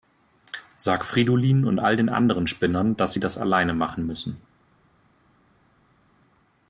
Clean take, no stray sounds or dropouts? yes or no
yes